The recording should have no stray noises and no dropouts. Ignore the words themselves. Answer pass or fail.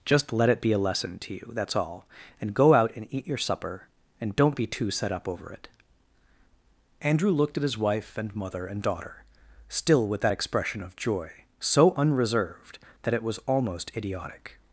pass